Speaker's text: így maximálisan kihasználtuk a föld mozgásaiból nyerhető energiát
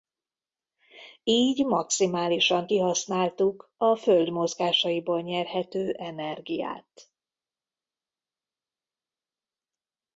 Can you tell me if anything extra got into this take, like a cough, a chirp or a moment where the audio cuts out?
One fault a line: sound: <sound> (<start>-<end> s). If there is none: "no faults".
no faults